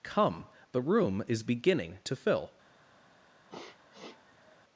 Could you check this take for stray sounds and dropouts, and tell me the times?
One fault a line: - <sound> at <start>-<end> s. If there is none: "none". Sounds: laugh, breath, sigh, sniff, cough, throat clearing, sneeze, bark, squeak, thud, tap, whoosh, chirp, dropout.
- sniff at 3.5-4.6 s